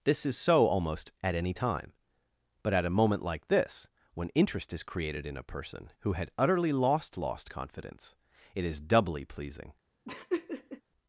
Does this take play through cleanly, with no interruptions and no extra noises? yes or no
no